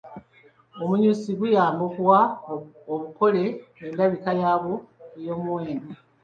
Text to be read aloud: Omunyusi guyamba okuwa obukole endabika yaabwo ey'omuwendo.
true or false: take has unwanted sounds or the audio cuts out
false